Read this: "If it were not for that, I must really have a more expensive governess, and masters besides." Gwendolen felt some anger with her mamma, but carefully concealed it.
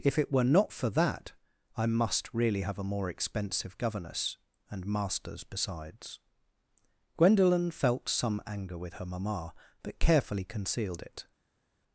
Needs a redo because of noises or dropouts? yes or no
no